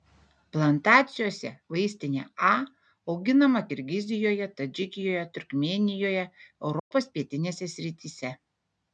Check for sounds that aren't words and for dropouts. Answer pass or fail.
fail